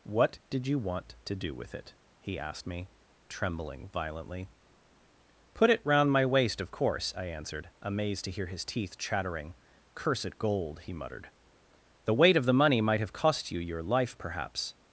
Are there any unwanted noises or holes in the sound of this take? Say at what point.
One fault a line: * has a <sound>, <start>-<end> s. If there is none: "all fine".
all fine